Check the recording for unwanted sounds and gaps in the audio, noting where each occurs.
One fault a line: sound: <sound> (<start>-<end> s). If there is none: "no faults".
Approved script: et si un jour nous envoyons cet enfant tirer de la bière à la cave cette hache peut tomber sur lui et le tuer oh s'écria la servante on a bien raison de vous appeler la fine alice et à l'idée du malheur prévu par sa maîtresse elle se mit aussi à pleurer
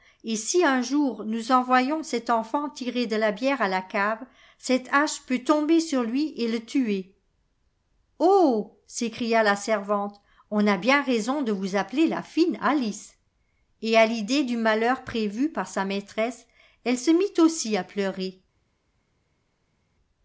no faults